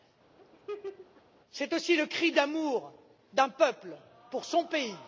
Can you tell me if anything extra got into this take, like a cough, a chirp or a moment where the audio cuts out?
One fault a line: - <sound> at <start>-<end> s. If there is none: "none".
- laugh at 0.4-1.2 s